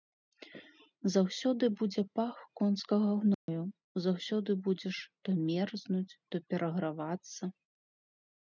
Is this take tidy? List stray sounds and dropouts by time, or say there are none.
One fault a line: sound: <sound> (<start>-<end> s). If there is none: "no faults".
sound: dropout (3.3-3.5 s)